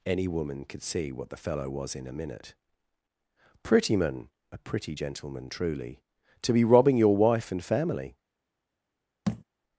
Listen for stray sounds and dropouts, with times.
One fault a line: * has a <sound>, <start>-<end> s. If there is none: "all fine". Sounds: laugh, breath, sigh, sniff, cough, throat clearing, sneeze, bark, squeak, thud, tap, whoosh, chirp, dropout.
* has a thud, 9.3-9.4 s